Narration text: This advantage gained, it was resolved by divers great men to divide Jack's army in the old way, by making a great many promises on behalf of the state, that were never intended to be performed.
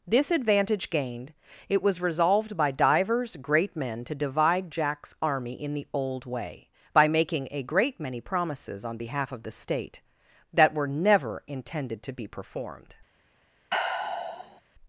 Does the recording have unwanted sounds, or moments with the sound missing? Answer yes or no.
yes